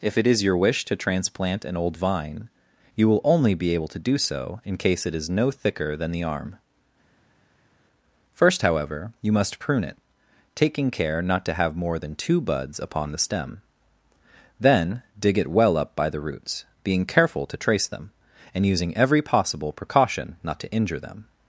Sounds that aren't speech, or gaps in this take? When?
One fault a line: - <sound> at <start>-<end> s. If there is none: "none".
none